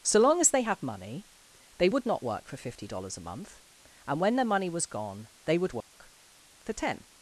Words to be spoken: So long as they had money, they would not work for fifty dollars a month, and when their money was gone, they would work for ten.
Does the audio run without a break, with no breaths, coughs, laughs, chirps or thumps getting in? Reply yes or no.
no